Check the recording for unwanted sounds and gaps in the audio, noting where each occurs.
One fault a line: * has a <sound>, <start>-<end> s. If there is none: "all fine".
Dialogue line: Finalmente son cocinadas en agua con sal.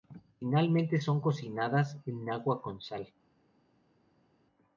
all fine